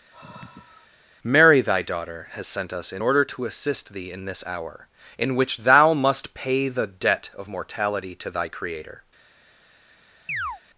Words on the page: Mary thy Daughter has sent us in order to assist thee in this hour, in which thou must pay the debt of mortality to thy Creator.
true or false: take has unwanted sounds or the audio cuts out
true